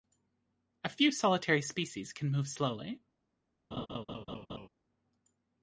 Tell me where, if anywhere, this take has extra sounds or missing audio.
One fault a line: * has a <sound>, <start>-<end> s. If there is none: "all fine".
* has a laugh, 3.7-4.7 s